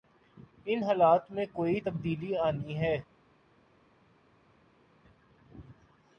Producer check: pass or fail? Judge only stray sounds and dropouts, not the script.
pass